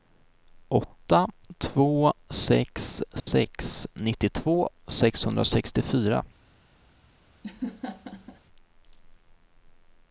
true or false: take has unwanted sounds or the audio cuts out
true